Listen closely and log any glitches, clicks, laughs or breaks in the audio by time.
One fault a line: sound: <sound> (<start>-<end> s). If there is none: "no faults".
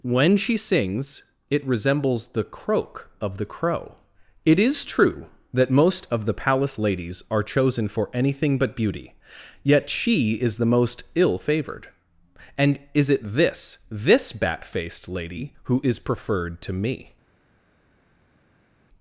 no faults